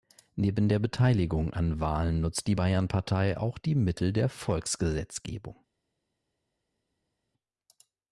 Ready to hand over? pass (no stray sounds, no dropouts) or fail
pass